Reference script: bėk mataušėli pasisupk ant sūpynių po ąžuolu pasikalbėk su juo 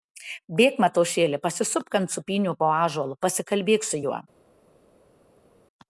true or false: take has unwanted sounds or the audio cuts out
false